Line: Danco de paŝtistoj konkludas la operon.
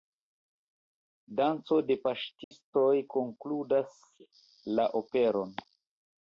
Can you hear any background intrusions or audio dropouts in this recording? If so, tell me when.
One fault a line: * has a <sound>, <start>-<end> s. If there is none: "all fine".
* has a dropout, 2.4-2.5 s